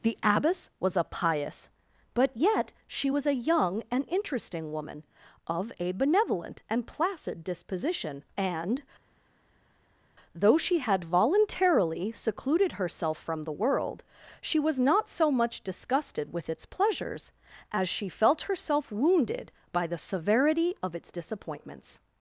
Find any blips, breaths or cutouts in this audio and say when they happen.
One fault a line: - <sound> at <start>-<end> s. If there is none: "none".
none